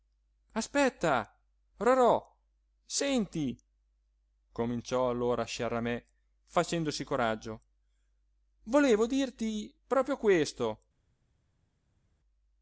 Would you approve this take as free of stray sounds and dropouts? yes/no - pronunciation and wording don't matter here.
yes